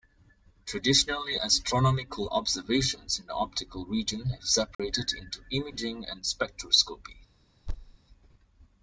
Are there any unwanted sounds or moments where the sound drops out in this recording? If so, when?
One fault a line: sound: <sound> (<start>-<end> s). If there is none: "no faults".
sound: dropout (4.7-4.8 s)
sound: thud (7.7-8.0 s)